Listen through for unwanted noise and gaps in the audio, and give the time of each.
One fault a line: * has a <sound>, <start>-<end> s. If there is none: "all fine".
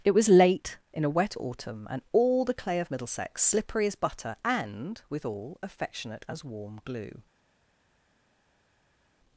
all fine